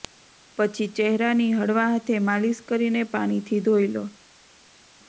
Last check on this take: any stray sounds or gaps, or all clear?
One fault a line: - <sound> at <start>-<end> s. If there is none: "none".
none